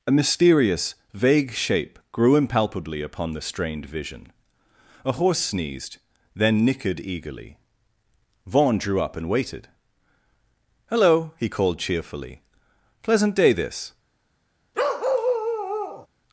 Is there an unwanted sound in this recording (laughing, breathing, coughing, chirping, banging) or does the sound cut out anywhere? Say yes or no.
yes